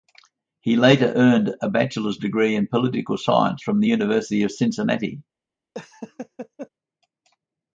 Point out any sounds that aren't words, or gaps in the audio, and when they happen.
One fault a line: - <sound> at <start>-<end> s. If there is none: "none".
- laugh at 5.7-6.7 s